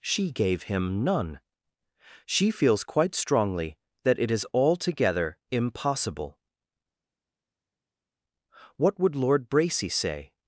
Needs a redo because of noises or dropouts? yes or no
no